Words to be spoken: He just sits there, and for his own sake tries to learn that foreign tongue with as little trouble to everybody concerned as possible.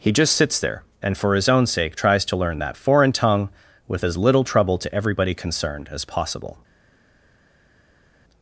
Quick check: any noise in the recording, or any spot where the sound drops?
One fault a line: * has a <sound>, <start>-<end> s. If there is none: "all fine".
all fine